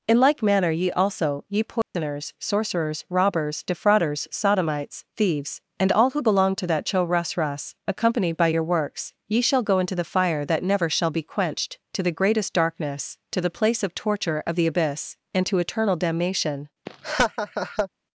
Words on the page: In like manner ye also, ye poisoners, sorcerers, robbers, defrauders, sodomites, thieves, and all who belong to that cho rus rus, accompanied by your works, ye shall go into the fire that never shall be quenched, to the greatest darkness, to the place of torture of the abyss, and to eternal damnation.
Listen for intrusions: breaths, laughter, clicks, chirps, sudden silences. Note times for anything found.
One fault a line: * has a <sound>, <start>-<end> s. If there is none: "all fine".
* has a dropout, 1.8-1.9 s
* has a laugh, 16.9-17.9 s